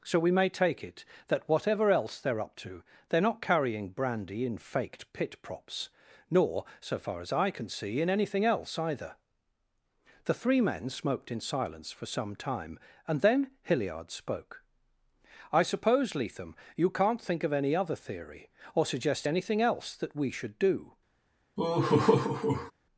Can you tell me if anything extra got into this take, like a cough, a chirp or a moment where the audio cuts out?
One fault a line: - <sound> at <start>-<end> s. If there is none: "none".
- laugh at 21.6-22.7 s